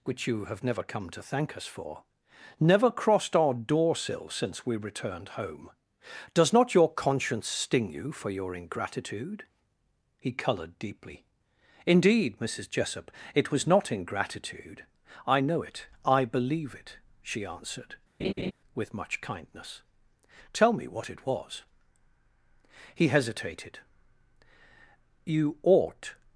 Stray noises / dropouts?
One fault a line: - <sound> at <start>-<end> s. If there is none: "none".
- laugh at 18.2-18.5 s